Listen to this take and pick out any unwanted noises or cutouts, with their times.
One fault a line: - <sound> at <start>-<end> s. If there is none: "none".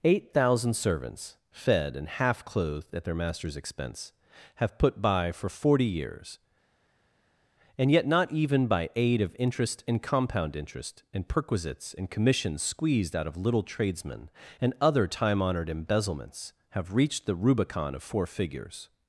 none